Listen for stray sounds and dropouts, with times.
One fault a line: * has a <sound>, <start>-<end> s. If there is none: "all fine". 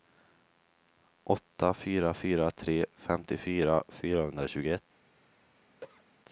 * has a cough, 5.8-6.0 s